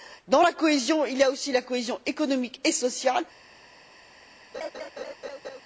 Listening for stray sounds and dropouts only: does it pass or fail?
fail